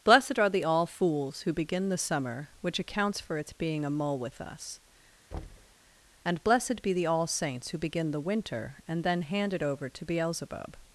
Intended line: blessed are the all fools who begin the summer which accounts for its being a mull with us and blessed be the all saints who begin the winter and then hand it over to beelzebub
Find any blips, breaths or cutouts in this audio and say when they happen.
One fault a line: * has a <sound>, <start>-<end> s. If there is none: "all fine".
* has a thud, 5.3-5.8 s